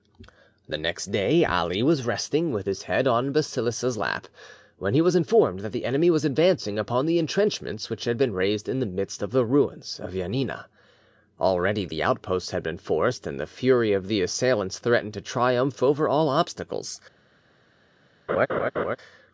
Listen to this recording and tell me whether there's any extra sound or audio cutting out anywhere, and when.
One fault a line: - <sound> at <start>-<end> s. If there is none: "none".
- laugh at 18.3-19.0 s